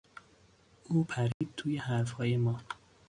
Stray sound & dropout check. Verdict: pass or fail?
fail